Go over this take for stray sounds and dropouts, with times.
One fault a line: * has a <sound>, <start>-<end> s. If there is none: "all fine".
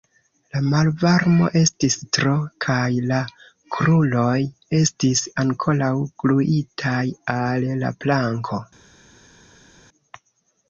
all fine